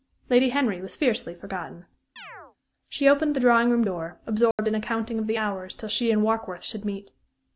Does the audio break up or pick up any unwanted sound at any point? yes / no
yes